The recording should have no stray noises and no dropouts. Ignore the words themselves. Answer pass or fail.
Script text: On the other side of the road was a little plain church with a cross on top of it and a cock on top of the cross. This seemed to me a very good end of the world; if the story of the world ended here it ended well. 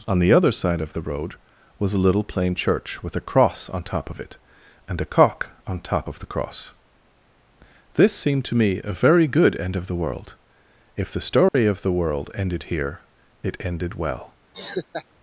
fail